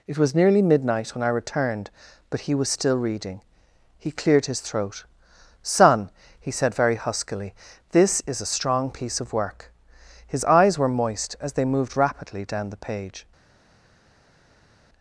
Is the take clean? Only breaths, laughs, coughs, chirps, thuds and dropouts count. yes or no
yes